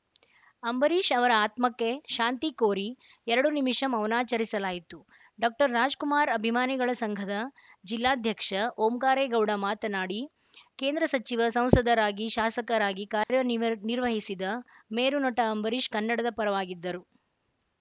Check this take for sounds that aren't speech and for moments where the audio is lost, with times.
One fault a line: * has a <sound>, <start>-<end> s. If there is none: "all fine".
* has a dropout, 13.2-13.3 s